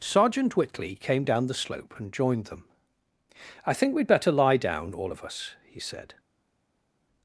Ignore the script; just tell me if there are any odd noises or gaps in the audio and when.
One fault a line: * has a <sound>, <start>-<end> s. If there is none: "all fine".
all fine